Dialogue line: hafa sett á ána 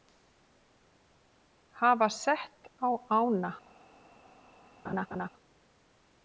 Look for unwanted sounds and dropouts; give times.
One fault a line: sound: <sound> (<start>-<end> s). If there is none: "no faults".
sound: laugh (4.8-5.3 s)